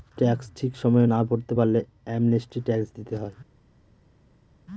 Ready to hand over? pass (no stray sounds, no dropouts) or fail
pass